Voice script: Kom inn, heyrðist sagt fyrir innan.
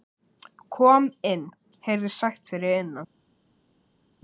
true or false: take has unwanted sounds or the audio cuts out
false